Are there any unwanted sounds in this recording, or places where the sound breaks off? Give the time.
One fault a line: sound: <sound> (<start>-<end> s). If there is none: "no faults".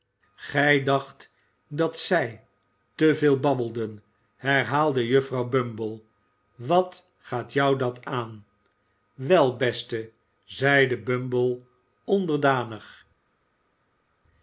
no faults